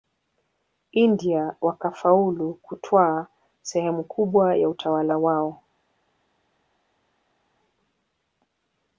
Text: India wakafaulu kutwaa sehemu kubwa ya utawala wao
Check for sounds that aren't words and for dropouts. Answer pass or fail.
pass